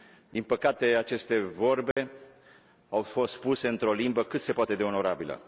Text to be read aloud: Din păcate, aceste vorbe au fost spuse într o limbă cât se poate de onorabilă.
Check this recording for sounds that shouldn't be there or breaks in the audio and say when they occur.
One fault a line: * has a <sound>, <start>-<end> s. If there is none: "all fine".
* has a dropout, 1.9-2.0 s